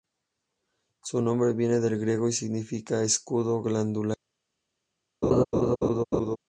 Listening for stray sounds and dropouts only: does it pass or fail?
fail